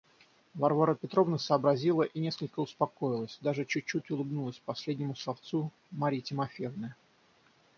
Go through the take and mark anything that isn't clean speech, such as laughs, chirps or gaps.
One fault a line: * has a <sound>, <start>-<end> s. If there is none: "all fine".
all fine